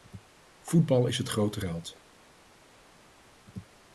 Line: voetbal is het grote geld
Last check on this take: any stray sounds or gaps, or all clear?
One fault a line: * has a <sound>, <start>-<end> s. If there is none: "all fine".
all fine